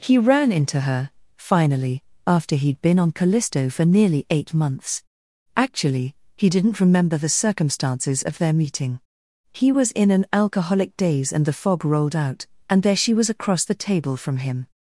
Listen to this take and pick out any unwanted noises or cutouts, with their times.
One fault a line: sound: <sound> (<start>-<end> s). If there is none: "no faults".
no faults